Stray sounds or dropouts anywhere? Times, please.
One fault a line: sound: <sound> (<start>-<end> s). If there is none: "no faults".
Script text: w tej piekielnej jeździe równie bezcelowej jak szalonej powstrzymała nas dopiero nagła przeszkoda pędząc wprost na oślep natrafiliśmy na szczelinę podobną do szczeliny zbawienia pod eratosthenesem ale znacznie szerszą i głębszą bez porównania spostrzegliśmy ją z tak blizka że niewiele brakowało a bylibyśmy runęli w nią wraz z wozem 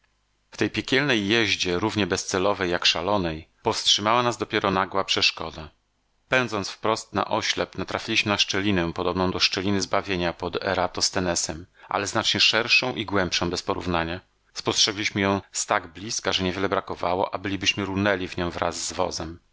no faults